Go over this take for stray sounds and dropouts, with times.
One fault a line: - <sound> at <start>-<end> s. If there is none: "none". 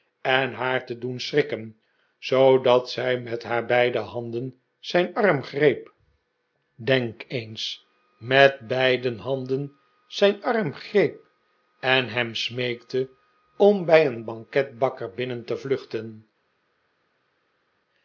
none